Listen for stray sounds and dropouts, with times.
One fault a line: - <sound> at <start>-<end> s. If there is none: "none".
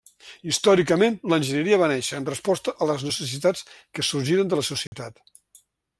- dropout at 4.9-4.9 s